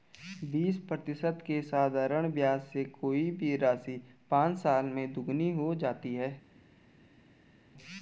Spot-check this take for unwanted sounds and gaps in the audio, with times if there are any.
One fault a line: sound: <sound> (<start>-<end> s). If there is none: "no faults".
no faults